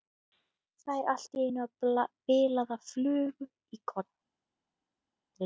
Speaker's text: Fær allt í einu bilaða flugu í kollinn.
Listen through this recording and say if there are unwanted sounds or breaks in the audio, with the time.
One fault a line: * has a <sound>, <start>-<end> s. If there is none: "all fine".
all fine